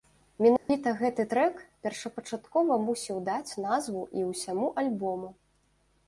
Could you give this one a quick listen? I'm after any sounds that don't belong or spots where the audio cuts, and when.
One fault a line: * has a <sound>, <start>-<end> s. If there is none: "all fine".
* has a dropout, 0.6-0.7 s